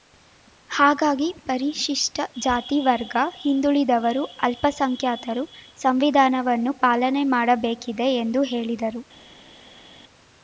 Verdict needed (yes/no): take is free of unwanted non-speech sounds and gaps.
yes